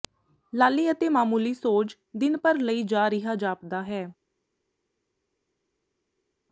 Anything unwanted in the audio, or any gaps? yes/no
no